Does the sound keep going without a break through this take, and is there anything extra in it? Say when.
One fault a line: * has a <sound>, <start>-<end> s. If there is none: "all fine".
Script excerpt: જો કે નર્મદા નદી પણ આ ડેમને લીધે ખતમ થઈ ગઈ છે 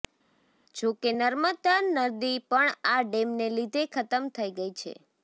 all fine